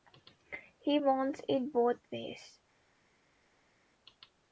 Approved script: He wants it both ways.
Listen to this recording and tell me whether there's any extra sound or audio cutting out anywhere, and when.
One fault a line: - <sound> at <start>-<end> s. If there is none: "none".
none